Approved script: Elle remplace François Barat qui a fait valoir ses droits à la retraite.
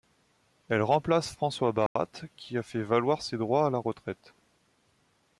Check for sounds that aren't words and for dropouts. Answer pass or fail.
fail